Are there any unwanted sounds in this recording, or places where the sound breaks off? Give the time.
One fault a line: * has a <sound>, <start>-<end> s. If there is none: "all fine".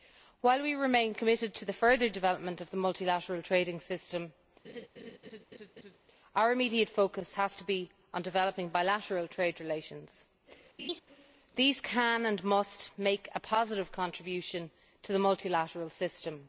* has a laugh, 4.6-6.0 s
* has a laugh, 10.8-11.0 s